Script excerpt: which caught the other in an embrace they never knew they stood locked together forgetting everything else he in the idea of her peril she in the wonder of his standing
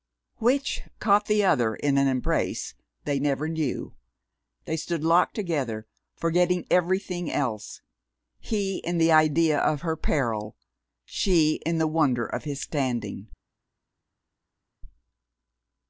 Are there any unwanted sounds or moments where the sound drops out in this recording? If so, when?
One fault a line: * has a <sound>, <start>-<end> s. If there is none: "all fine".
all fine